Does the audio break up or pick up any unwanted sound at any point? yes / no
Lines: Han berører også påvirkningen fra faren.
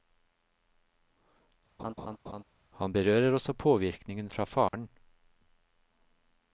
yes